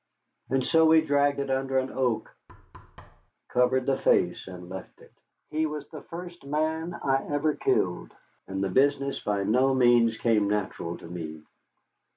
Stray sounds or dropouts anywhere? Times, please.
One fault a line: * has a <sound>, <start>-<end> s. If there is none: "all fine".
* has a thud, 2.5-3.3 s